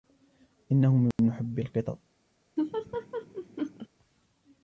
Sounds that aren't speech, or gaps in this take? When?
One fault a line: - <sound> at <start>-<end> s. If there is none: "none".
- dropout at 1.1-1.2 s
- laugh at 2.6-3.9 s